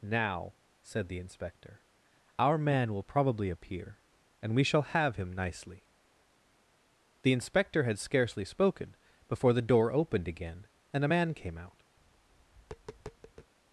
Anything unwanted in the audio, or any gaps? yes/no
yes